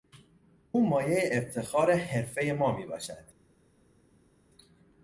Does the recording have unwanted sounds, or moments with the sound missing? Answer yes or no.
no